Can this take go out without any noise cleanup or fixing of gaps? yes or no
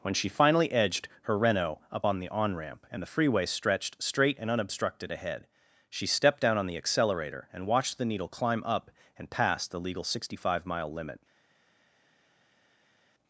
yes